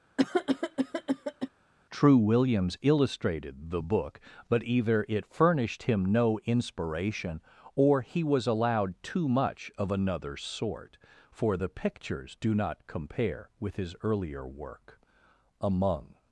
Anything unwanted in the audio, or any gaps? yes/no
yes